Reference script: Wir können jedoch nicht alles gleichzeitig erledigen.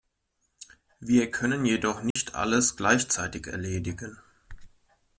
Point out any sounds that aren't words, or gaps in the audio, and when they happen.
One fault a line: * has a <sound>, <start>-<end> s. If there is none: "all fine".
* has a dropout, 2.1-2.2 s